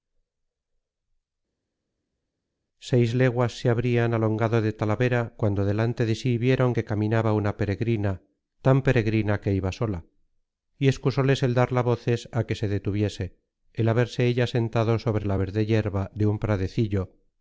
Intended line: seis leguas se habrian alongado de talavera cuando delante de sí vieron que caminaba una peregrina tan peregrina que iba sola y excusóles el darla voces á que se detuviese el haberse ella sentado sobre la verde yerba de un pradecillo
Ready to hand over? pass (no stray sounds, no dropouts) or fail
pass